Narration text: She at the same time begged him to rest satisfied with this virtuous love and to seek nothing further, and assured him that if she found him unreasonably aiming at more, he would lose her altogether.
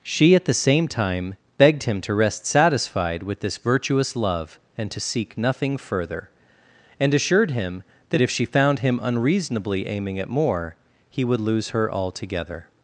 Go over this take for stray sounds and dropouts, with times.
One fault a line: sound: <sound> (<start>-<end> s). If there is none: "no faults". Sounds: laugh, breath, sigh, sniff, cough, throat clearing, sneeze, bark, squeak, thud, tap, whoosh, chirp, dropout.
no faults